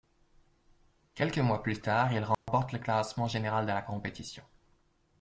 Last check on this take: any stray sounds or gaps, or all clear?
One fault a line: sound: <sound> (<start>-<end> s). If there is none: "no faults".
sound: dropout (2.3-2.5 s)